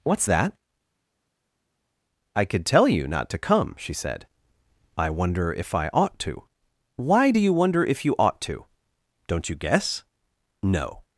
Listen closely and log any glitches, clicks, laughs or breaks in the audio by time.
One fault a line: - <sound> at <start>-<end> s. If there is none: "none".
none